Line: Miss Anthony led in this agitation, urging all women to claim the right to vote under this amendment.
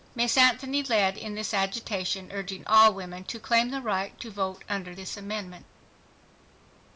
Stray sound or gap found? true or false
false